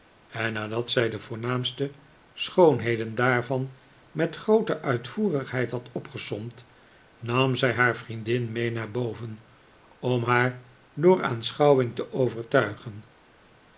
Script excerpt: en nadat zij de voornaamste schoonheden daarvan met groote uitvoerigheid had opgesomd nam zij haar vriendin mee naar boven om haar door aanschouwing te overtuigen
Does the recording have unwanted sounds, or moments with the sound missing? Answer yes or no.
no